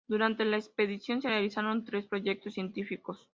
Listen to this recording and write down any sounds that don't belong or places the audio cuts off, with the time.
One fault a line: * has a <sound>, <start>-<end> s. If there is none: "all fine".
all fine